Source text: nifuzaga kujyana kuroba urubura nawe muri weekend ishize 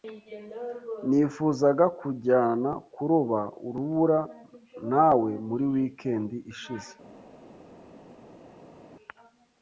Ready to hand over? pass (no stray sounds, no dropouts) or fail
pass